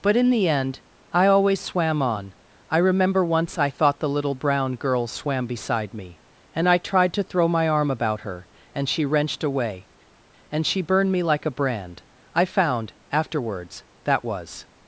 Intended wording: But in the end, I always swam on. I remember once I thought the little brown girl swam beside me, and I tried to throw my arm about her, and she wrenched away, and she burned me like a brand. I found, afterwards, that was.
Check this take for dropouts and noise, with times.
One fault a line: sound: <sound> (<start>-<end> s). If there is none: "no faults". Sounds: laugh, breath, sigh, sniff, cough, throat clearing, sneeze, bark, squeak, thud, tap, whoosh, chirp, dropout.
no faults